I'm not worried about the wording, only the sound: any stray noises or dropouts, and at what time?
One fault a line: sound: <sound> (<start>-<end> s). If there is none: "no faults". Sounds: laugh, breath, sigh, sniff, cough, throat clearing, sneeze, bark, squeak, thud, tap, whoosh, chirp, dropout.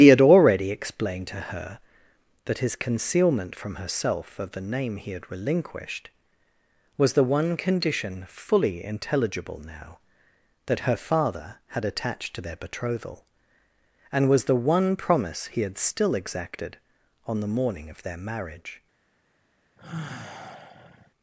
sound: sigh (19.8-21.1 s)